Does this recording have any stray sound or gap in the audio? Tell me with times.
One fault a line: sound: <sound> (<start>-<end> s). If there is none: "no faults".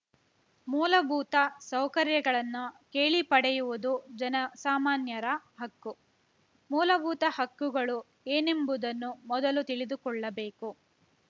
no faults